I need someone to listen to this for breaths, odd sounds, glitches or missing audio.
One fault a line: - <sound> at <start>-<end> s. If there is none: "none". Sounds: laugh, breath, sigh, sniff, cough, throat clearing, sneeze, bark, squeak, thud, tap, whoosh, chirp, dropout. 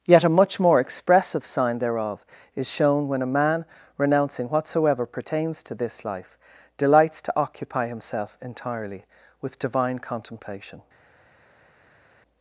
none